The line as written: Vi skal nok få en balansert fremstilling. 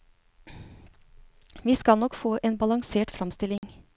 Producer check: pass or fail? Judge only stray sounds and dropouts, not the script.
fail